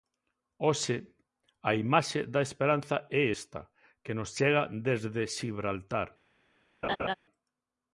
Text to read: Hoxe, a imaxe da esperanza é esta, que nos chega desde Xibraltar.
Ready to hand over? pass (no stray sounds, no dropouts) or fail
fail